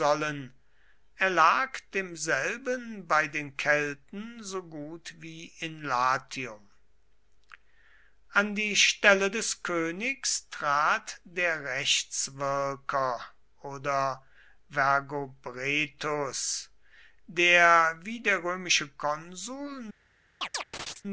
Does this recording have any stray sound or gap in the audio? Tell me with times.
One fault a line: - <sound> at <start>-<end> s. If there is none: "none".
- chirp at 20.4-21.0 s